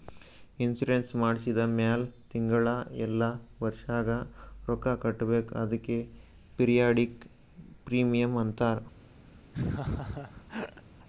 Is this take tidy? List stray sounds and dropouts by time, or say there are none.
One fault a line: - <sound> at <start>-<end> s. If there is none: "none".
- laugh at 9.5-10.8 s